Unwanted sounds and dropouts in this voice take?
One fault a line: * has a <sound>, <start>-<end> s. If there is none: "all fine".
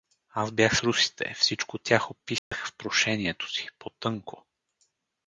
* has a dropout, 2.4-2.5 s